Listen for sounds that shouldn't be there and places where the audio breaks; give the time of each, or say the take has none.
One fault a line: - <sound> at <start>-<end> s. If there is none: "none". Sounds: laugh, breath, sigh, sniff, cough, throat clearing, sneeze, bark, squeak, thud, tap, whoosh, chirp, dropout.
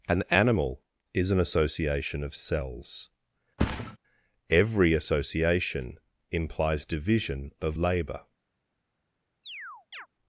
- thud at 3.6-4.0 s
- chirp at 9.4-10.1 s